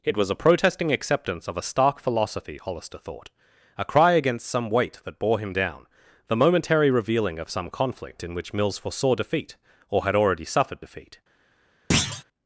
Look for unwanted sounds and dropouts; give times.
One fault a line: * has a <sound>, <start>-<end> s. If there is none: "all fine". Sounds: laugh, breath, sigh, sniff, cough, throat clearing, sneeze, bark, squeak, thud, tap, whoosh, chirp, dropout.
* has a thud, 11.9-12.2 s